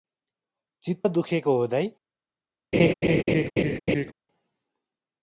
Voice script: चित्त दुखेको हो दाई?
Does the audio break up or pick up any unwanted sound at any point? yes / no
yes